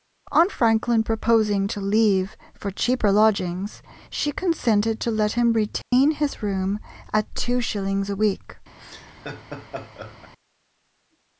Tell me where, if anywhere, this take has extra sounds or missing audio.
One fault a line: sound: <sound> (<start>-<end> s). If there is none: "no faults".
sound: dropout (5.8-5.9 s)
sound: laugh (8.8-10.3 s)